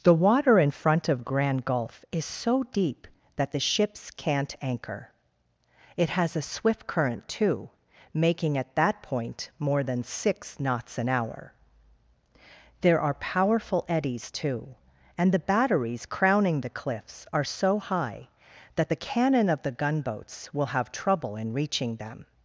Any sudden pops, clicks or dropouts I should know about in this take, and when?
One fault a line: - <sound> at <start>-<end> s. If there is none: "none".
none